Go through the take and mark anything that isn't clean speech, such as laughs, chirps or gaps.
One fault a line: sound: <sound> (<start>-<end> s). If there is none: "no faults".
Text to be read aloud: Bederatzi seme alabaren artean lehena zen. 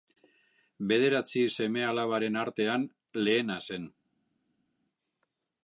no faults